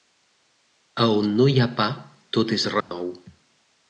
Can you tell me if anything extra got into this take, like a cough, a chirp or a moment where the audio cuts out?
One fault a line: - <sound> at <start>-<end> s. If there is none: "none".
- dropout at 2.8-2.9 s